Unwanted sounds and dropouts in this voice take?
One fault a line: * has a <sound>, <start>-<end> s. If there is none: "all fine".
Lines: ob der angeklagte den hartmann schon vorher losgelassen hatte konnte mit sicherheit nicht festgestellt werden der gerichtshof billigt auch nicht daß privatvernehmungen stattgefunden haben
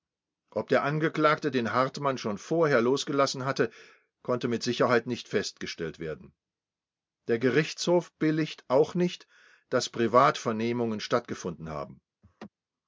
* has a laugh, 12.2-12.5 s